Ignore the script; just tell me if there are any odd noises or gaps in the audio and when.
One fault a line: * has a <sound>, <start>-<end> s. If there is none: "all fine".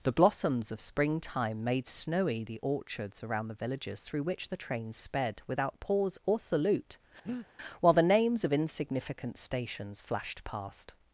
* has a breath, 7.3-7.5 s